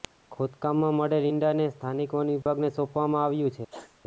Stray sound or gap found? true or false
true